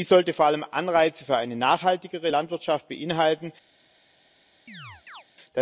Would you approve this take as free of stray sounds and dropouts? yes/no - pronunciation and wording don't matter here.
no